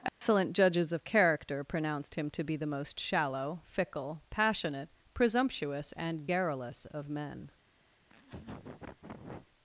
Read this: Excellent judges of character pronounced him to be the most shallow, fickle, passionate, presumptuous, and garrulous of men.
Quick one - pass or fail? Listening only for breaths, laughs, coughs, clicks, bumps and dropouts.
fail